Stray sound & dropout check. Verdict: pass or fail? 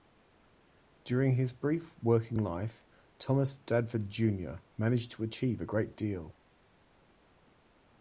pass